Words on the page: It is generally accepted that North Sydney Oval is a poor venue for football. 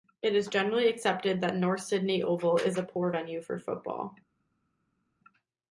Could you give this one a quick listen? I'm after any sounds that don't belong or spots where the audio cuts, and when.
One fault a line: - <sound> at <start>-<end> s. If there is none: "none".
none